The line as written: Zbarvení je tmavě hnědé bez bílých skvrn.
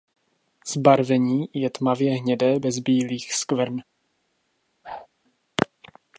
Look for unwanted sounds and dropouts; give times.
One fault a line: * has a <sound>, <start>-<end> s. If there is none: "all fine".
* has a whoosh, 4.8-5.1 s